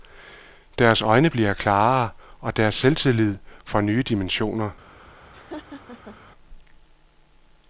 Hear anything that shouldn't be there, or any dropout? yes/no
yes